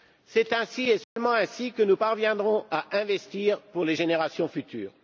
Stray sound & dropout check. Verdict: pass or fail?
fail